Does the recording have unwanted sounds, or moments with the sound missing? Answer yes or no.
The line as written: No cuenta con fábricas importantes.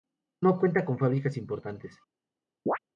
yes